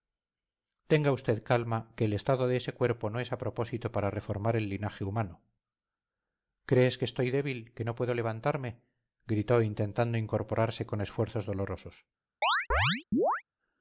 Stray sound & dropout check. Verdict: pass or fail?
fail